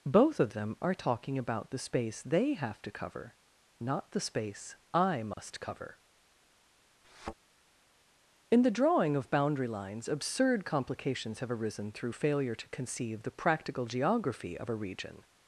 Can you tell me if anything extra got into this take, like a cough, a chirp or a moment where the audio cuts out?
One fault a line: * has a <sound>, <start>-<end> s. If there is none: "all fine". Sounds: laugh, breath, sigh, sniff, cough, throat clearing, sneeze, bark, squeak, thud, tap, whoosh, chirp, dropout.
* has a dropout, 5.3-5.4 s
* has a thud, 7.0-7.3 s